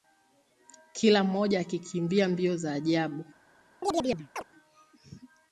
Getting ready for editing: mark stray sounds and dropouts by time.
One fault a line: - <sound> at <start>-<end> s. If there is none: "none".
- chirp at 3.8-4.4 s